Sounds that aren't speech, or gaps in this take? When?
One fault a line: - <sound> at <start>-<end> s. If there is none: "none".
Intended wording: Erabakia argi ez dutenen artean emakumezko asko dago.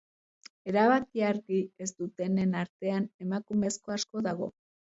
none